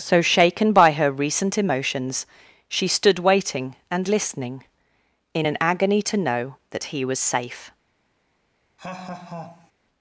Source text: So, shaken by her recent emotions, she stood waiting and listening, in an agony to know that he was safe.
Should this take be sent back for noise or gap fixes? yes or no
yes